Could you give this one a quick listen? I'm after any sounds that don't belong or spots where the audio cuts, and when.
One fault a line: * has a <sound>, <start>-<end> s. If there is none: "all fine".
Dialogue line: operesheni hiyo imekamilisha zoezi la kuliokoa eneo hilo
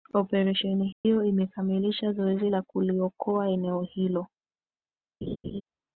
* has a dropout, 0.9-1.0 s
* has a laugh, 5.2-5.6 s